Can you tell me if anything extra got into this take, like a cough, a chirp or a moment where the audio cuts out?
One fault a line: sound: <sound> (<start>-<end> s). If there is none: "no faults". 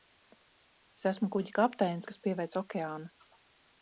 no faults